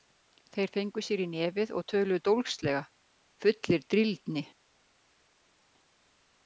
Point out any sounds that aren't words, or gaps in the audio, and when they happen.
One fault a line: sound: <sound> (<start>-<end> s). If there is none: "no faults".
no faults